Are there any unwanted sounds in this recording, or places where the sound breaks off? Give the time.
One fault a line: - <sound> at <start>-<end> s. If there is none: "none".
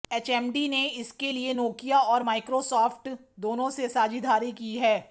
none